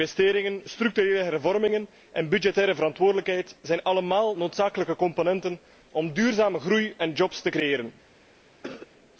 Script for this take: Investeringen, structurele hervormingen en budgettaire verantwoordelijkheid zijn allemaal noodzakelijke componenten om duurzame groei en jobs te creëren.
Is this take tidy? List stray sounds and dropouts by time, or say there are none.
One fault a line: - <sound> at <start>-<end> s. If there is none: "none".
- cough at 8.6-8.9 s